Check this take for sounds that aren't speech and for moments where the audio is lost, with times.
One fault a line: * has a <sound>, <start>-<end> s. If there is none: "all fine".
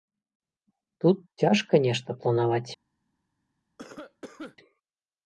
* has a cough, 3.8-4.6 s